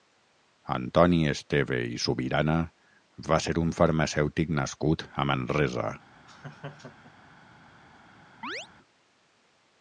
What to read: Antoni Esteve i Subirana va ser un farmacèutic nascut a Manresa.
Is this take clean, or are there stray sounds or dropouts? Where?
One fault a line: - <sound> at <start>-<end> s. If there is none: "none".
- laugh at 6.3-7.4 s
- chirp at 8.4-8.7 s